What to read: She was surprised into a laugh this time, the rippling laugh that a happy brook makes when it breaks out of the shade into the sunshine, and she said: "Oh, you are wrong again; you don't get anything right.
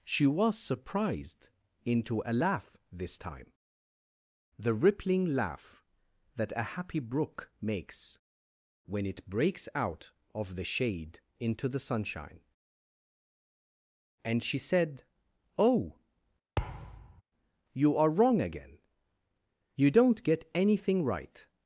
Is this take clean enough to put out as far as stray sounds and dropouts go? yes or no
no